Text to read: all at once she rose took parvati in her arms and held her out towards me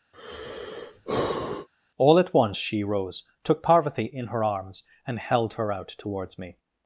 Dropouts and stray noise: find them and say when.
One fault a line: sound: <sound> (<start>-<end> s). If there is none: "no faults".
sound: sigh (0.1-1.7 s)